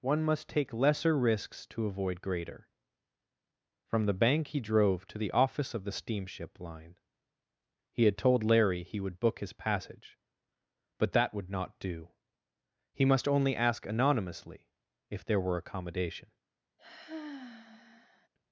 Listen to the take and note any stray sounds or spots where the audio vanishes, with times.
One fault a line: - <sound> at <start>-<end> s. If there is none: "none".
- sigh at 16.8-18.3 s